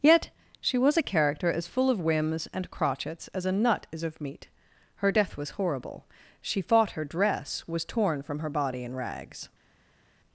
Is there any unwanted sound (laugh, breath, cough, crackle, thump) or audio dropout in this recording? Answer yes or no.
no